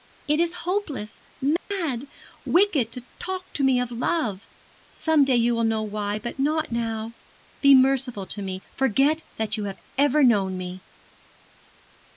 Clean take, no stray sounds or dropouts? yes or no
no